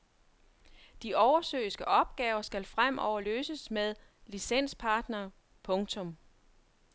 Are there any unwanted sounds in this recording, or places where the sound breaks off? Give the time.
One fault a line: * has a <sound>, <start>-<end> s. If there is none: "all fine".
all fine